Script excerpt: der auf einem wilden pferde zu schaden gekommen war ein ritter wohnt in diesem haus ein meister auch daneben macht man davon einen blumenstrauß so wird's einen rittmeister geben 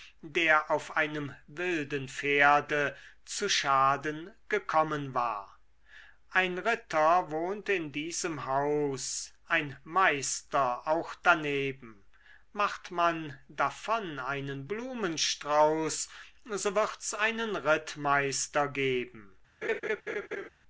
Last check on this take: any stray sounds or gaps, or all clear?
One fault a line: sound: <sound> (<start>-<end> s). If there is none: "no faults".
sound: laugh (19.6-20.5 s)